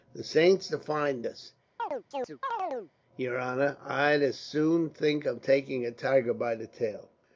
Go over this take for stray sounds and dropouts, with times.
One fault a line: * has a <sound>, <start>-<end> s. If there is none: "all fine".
* has a chirp, 1.8-2.9 s